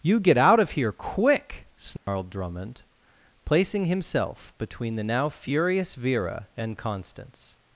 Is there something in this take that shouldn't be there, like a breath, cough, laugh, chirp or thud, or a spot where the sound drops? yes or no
yes